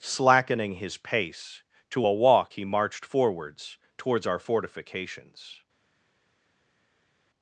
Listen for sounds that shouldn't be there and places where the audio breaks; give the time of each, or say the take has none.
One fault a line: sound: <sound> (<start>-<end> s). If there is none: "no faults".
no faults